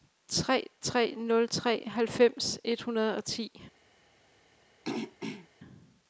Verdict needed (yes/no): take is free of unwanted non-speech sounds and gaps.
no